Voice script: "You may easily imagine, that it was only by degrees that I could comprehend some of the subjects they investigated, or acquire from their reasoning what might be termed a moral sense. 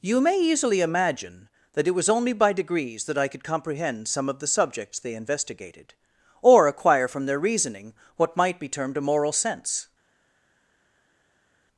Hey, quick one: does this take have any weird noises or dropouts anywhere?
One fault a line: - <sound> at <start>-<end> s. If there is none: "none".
none